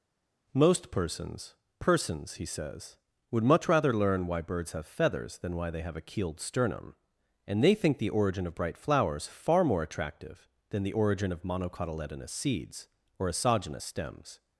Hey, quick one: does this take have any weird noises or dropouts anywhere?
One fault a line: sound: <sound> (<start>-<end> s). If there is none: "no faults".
no faults